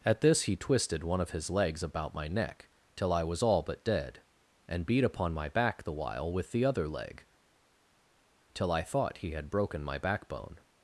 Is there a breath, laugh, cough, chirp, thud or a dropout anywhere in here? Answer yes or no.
no